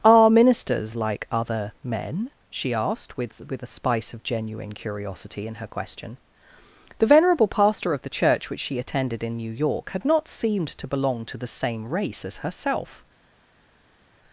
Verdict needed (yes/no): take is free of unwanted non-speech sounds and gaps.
yes